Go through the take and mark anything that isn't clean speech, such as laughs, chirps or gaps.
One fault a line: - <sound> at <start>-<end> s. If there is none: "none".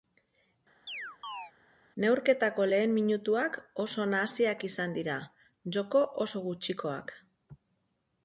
- chirp at 0.9-1.5 s